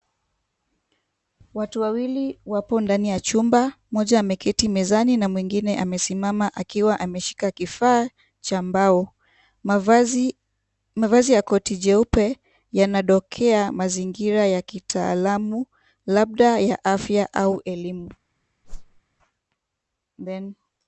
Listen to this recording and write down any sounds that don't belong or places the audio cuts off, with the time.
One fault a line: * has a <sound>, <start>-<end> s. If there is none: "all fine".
* has a whoosh, 18.6-19.0 s